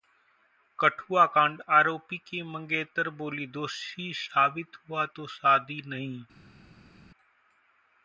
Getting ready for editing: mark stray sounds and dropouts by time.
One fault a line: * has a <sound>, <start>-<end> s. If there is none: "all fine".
all fine